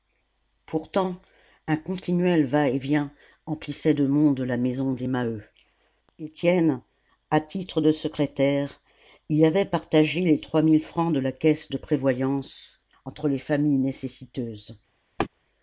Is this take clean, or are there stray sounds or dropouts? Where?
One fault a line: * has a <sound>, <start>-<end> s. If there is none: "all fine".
* has a laugh, 15.2-15.3 s